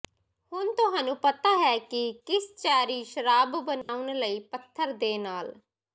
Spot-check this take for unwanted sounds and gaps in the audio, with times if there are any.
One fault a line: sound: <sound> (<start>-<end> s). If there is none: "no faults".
sound: dropout (3.8-3.9 s)